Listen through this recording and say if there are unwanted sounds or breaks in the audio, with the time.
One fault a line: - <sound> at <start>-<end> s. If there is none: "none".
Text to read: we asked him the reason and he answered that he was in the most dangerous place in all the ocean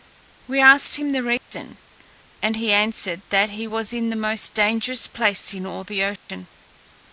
- dropout at 1.4-1.5 s
- dropout at 6.2-6.3 s